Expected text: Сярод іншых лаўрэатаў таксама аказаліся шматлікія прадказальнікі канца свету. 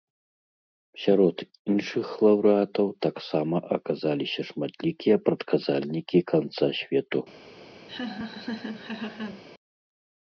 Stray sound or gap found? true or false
true